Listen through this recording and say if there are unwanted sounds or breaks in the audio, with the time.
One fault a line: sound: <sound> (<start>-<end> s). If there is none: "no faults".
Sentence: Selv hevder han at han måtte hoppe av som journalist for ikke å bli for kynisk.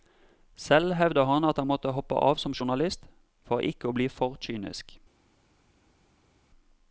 no faults